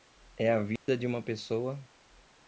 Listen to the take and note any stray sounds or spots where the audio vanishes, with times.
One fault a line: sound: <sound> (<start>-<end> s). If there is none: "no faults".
sound: dropout (0.8-0.9 s)